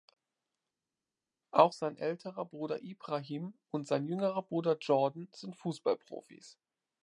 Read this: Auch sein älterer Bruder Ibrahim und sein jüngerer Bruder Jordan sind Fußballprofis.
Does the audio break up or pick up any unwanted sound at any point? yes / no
no